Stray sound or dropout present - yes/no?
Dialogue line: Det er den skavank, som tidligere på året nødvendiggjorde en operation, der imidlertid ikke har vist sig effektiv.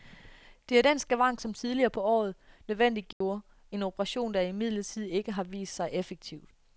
yes